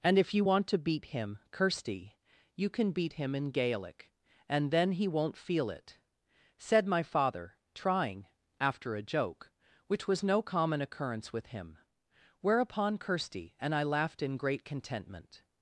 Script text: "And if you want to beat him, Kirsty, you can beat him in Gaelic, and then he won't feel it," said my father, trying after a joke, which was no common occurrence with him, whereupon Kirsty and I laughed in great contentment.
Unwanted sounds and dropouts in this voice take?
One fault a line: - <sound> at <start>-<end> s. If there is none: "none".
none